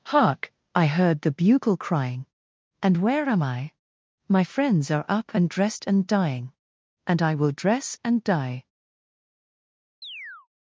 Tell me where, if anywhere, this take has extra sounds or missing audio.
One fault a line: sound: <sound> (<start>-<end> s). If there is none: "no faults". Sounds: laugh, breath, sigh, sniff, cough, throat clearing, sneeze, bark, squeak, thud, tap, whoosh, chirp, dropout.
sound: chirp (10.0-10.5 s)